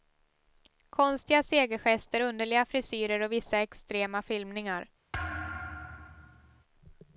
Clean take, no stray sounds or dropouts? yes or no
no